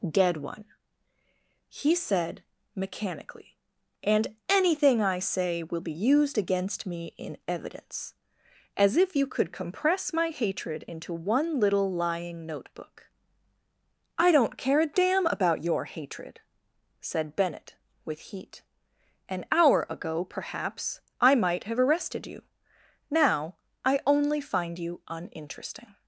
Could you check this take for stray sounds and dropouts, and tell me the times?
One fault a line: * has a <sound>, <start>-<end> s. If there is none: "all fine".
all fine